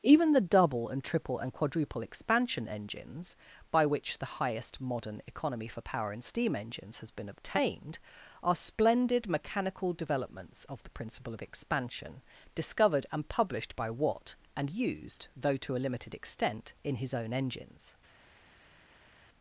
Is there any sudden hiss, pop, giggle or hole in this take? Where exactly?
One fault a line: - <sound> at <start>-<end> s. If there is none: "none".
none